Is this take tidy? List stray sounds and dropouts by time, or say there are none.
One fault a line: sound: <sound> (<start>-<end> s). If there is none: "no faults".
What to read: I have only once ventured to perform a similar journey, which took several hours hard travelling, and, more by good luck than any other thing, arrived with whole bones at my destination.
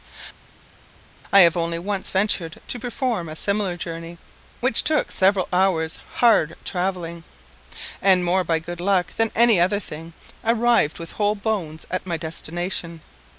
no faults